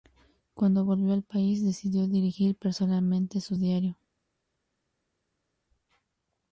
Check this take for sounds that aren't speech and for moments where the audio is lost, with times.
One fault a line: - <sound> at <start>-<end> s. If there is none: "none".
none